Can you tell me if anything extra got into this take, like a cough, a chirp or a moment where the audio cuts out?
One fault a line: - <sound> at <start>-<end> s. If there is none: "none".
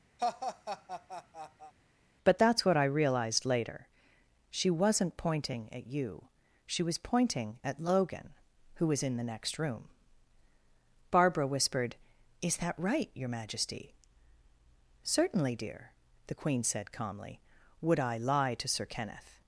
- laugh at 0.2-1.7 s